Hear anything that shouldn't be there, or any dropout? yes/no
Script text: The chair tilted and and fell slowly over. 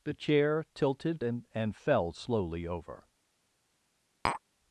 yes